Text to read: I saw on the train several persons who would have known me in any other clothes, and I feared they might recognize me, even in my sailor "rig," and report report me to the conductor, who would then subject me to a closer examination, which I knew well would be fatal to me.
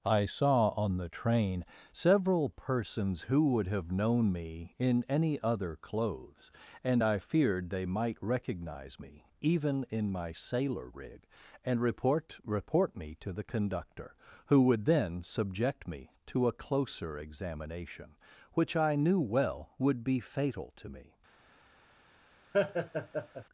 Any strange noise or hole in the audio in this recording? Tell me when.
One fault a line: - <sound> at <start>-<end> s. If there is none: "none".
- laugh at 22.5-23.4 s